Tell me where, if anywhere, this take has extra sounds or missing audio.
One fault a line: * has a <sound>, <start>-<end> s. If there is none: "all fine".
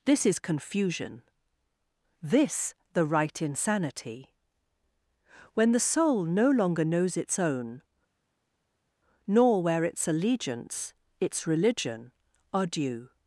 all fine